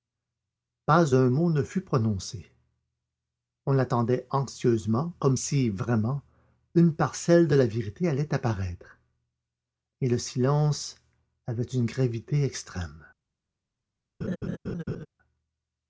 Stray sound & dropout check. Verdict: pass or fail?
fail